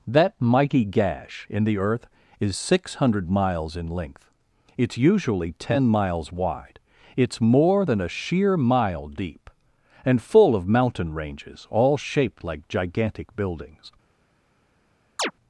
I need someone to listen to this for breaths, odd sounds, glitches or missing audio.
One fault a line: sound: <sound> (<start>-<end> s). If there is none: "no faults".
sound: chirp (15.2-15.3 s)